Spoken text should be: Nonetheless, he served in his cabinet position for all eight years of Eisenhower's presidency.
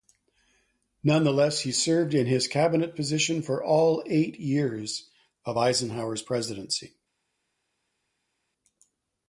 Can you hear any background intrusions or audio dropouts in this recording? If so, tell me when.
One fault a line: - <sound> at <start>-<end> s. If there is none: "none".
none